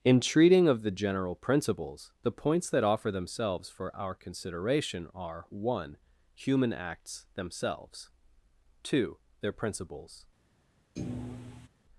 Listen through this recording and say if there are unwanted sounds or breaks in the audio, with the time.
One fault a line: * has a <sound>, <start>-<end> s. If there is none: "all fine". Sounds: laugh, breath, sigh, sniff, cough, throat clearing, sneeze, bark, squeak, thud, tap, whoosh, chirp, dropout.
* has a thud, 11.0-11.7 s